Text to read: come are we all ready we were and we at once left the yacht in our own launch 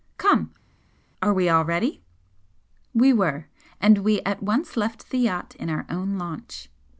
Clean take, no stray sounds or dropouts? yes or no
yes